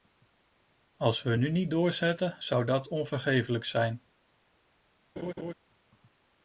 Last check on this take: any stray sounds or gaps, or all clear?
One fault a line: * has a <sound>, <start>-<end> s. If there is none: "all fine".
* has a laugh, 5.2-5.5 s